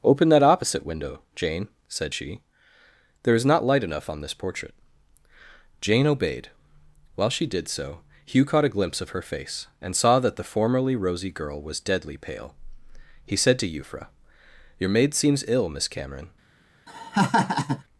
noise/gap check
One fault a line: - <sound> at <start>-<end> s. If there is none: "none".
- laugh at 16.9-17.8 s